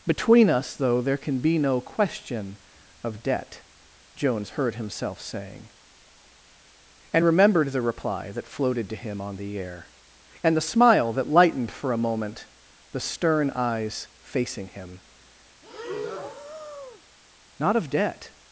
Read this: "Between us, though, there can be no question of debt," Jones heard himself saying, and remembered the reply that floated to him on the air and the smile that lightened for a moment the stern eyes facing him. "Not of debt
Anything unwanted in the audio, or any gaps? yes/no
yes